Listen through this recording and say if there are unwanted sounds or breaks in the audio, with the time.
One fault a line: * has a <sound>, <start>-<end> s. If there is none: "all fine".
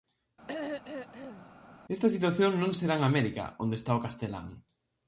* has a throat clearing, 0.5-1.5 s